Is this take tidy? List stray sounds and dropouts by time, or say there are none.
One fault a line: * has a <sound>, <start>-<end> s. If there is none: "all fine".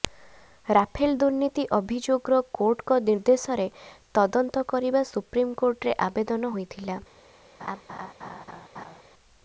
* has a laugh, 7.6-9.0 s